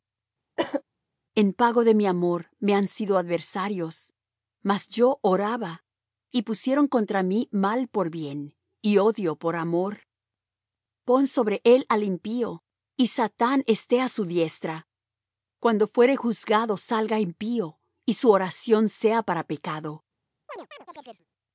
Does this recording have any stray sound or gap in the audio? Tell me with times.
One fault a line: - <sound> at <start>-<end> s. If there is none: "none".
- cough at 0.6-0.8 s
- chirp at 20.5-21.3 s